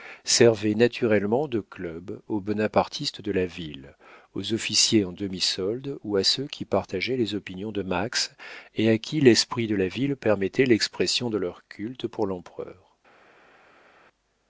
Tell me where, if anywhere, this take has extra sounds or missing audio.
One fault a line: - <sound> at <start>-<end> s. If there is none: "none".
none